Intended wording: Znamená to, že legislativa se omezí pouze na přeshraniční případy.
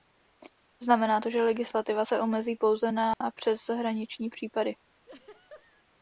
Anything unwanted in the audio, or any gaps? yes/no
yes